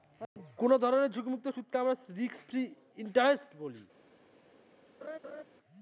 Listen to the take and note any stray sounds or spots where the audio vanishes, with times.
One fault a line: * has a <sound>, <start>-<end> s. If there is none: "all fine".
* has a laugh, 5.0-5.4 s